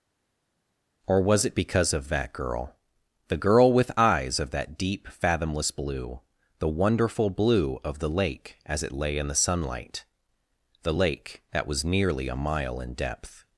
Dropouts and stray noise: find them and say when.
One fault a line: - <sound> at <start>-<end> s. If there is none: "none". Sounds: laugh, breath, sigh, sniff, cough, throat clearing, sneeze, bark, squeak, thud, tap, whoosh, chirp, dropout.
none